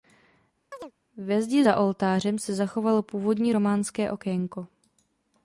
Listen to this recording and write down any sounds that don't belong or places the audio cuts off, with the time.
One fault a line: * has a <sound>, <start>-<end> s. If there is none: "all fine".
* has a chirp, 0.7-0.9 s